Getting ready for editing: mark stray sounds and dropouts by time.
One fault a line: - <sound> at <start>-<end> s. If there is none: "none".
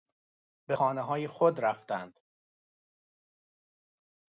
none